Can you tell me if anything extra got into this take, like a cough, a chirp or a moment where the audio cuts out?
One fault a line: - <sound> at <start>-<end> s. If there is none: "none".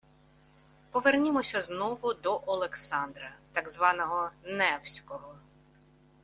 none